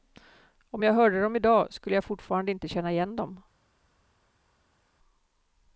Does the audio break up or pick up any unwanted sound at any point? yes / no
no